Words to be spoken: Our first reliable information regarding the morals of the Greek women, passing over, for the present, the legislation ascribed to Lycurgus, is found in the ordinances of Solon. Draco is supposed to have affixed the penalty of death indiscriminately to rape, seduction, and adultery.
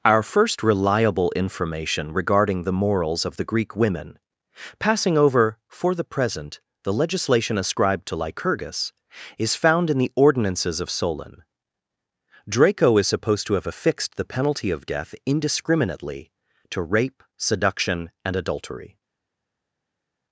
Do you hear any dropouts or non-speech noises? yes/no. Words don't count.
no